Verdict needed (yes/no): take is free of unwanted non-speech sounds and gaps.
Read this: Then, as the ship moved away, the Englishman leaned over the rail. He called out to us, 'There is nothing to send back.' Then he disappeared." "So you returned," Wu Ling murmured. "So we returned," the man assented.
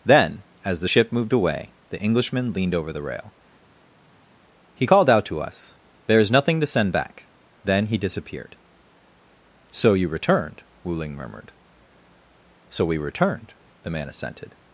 yes